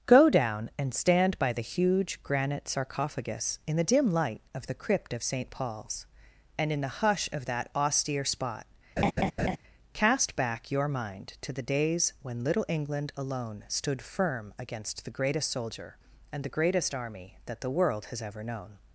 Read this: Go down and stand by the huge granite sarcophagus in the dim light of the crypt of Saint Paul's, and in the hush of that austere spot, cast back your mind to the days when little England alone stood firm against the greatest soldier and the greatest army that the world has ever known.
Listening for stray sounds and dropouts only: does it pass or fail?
fail